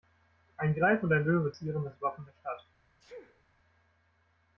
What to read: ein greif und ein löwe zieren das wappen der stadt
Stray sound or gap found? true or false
true